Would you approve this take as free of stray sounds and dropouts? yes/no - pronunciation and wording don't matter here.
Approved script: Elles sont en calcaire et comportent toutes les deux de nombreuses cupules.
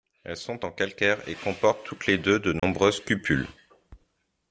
no